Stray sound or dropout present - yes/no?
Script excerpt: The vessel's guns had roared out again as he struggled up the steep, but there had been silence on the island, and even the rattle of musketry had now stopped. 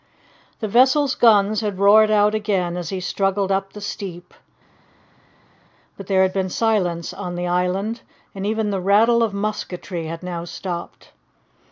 no